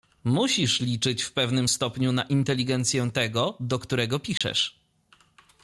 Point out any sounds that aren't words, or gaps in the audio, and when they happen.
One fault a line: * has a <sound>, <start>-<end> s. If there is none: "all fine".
* has a dropout, 4.4-4.4 s